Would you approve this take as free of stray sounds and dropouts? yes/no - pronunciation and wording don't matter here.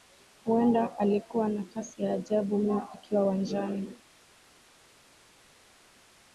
yes